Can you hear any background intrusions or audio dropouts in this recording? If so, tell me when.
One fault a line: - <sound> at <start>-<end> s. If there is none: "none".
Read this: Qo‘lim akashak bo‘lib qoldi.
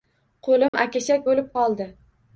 - dropout at 0.7-0.7 s